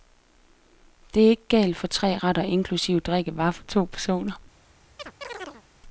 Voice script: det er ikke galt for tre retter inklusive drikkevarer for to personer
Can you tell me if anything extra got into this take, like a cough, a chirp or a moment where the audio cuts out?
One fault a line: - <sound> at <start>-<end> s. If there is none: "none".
- chirp at 5.0-5.6 s